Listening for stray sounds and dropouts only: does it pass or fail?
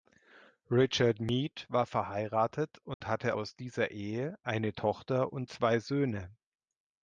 fail